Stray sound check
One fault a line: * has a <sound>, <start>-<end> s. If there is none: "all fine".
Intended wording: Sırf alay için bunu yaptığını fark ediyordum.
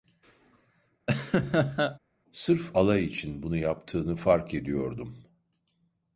* has a laugh, 1.1-2.0 s